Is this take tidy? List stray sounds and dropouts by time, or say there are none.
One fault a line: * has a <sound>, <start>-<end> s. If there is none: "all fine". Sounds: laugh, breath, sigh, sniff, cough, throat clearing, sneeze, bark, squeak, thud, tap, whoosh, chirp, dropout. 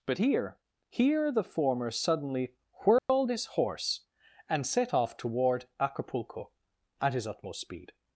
* has a dropout, 3.0-3.1 s